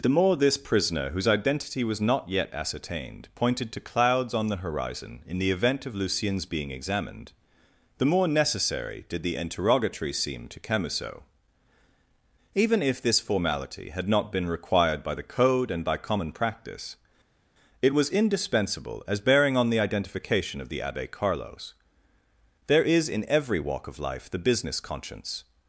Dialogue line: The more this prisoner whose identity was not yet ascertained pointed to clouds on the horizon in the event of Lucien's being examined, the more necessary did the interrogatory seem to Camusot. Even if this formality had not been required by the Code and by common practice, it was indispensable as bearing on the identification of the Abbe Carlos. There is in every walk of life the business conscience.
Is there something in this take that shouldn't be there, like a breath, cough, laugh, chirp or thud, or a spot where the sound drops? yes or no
no